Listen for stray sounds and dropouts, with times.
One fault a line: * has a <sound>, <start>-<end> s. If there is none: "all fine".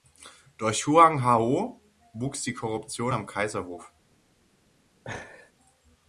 * has a laugh, 5.0-5.5 s